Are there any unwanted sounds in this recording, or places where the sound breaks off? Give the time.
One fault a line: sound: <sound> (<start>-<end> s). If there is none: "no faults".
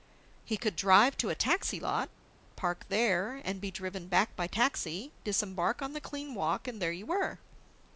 no faults